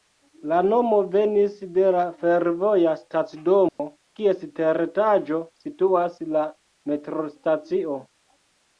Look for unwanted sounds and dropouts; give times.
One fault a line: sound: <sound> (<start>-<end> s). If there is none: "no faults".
sound: dropout (3.7-3.8 s)